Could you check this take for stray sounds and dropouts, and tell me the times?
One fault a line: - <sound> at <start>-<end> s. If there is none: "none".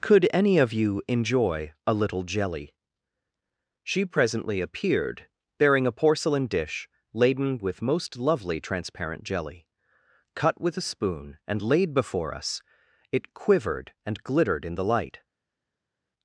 none